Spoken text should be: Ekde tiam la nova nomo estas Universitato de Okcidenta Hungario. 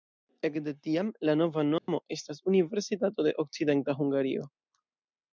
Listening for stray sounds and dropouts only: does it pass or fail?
fail